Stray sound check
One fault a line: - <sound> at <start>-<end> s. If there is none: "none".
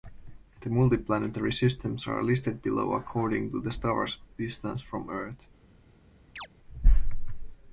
- chirp at 6.4-6.5 s